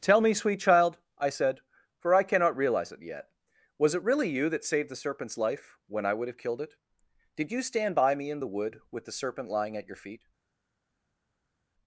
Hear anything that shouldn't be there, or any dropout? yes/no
no